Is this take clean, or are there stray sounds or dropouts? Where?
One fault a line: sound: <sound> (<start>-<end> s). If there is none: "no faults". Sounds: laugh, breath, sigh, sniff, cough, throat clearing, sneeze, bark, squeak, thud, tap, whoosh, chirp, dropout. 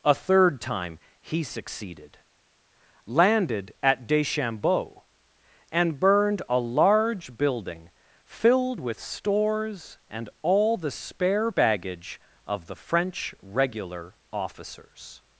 no faults